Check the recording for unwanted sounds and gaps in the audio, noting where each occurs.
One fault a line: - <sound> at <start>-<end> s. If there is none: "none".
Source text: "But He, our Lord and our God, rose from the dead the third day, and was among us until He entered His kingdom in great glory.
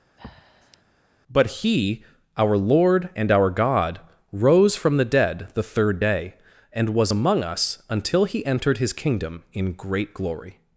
- breath at 0.2-0.8 s